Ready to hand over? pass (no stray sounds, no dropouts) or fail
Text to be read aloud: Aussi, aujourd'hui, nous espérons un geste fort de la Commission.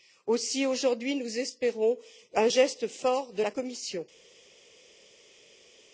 pass